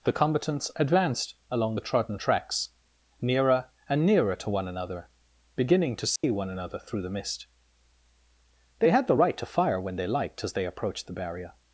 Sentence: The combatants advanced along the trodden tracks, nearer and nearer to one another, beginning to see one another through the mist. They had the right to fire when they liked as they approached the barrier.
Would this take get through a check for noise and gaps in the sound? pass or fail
fail